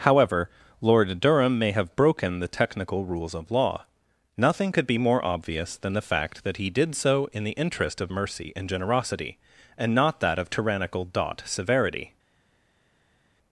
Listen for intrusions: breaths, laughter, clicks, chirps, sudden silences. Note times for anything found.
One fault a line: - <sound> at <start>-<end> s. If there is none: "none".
none